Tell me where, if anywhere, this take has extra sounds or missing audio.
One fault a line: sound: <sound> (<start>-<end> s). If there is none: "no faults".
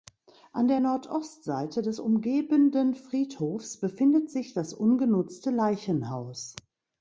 no faults